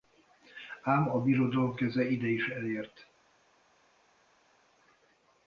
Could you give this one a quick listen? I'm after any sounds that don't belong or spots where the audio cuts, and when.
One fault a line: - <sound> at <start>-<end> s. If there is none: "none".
none